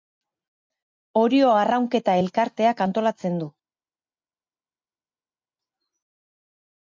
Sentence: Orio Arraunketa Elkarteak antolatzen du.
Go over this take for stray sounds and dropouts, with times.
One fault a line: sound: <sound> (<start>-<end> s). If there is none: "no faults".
no faults